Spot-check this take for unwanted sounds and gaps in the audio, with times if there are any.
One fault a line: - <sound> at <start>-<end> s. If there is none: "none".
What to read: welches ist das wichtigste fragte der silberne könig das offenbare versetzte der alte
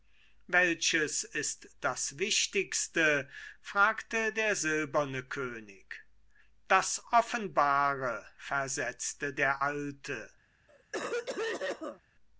- cough at 10.7-12.0 s